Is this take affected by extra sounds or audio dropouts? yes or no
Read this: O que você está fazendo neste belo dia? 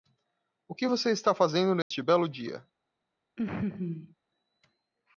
yes